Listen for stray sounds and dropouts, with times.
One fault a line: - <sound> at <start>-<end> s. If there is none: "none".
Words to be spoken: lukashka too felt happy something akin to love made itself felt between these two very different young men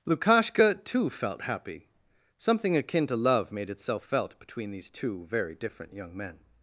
none